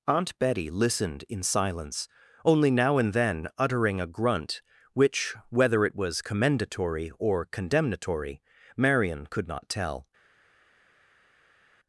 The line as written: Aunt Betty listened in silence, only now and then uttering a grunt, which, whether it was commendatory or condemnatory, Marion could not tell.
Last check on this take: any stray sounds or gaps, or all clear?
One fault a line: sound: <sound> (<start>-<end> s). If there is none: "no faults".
no faults